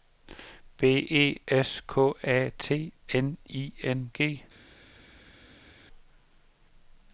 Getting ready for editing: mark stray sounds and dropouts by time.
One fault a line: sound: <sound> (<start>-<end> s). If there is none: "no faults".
no faults